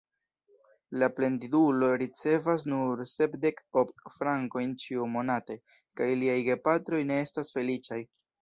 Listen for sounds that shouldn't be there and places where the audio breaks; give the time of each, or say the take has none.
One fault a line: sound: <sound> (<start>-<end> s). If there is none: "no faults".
no faults